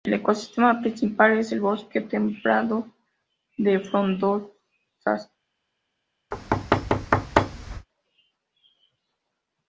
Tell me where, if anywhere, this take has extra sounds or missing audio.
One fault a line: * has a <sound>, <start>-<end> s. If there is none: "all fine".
* has a thud, 6.3-7.9 s